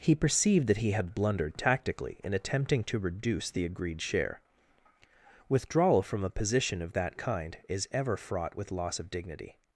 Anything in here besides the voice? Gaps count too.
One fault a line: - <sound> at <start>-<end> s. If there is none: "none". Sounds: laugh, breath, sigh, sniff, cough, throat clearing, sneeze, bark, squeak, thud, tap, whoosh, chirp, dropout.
none